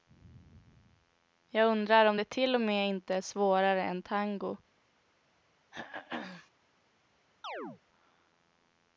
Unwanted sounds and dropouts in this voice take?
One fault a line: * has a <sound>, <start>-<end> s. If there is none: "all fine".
* has a throat clearing, 5.7-6.5 s
* has a chirp, 7.4-7.8 s